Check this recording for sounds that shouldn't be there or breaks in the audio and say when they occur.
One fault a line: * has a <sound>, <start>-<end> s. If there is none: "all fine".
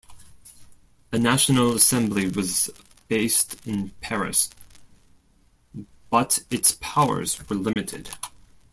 * has a dropout, 7.7-7.8 s